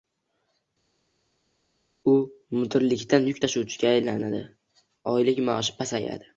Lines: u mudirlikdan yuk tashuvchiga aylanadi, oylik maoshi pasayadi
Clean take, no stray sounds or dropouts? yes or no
yes